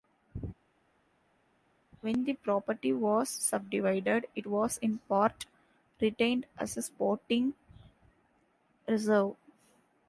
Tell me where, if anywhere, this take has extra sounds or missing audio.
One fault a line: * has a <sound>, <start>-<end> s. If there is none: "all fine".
all fine